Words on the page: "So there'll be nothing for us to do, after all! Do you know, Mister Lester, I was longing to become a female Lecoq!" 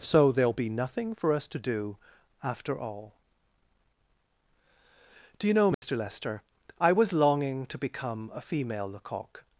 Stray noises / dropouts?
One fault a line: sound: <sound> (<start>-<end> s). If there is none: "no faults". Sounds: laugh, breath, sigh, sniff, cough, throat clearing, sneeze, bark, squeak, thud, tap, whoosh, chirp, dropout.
sound: dropout (5.7-5.8 s)